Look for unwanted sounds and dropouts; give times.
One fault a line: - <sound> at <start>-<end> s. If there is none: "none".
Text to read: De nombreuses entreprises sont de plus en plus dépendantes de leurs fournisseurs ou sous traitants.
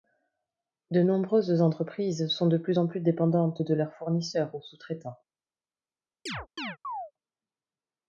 - chirp at 6.3-7.1 s